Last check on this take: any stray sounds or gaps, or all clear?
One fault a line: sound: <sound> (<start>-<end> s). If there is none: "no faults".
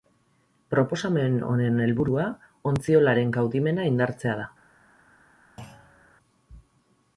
sound: thud (5.6-6.1 s)